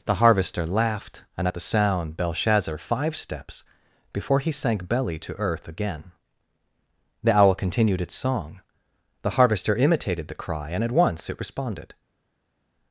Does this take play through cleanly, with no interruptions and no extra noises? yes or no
yes